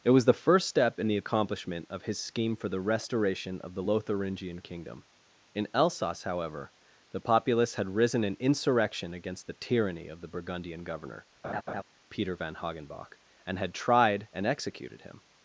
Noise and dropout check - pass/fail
fail